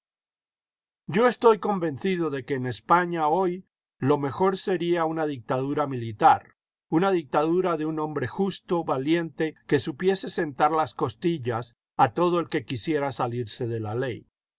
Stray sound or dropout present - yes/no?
no